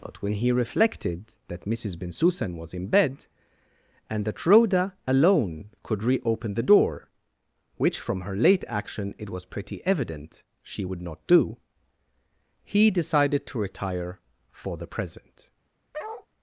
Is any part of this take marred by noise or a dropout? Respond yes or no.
yes